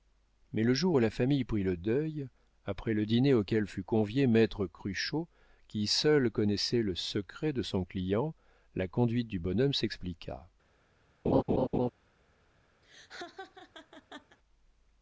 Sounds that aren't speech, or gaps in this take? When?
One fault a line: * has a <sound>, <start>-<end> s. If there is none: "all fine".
* has a laugh, 11.2-11.9 s
* has a laugh, 12.8-14.4 s